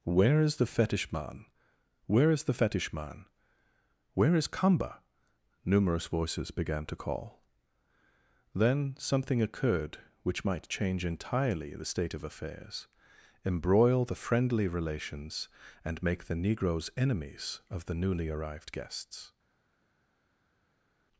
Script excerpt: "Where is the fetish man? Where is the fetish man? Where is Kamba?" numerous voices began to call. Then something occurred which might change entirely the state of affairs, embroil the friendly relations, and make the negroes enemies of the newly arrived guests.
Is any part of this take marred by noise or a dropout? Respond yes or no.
no